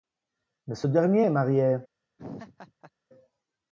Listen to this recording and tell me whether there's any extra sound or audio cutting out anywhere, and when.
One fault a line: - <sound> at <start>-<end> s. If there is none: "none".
- laugh at 2.2-2.9 s